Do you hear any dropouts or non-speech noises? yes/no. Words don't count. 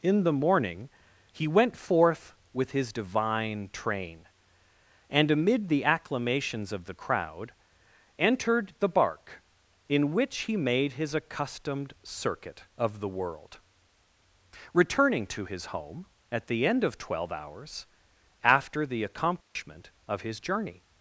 yes